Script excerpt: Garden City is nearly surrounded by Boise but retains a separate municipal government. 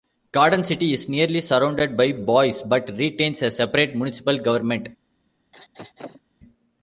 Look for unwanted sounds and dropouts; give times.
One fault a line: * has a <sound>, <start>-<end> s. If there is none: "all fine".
* has a throat clearing, 5.5-6.2 s